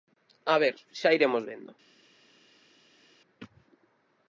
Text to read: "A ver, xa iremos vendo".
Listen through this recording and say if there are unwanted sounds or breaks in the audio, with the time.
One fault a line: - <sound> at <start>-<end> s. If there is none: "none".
none